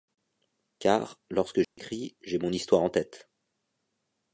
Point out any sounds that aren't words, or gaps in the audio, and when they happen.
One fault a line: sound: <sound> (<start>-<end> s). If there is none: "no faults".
sound: dropout (1.6-1.8 s)